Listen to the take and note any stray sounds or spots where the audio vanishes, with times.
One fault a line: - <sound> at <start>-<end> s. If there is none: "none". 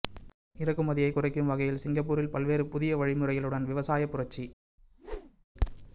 - whoosh at 4.8-5.5 s